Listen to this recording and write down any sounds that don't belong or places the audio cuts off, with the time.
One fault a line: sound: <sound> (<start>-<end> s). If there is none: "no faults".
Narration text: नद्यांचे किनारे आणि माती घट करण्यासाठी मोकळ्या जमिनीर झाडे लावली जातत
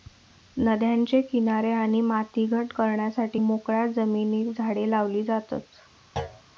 sound: thud (6.2-6.4 s)